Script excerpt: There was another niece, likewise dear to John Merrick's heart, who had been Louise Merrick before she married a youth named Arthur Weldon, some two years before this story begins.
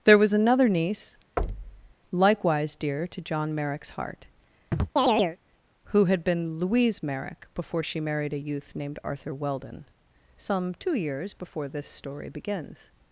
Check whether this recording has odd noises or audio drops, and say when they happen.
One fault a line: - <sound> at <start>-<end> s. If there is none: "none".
- thud at 1.4-1.9 s
- chirp at 4.7-5.4 s